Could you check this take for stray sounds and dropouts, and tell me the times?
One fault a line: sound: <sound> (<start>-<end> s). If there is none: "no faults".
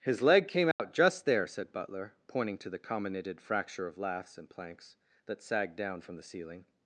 sound: dropout (0.7-0.8 s)